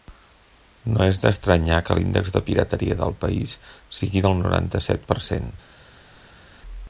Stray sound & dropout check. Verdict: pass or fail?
pass